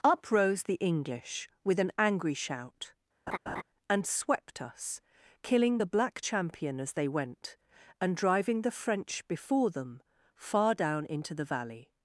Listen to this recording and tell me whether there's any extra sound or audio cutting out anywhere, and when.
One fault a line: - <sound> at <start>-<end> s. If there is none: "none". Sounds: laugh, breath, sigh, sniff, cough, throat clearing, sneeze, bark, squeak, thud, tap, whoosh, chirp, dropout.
- laugh at 3.3-3.6 s